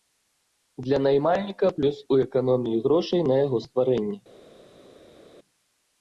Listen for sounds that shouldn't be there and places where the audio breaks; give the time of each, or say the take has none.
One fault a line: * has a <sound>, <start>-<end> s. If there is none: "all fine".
all fine